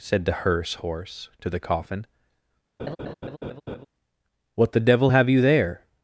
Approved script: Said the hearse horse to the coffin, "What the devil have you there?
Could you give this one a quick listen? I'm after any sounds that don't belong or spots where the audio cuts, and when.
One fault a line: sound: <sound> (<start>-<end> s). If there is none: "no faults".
sound: laugh (2.8-3.9 s)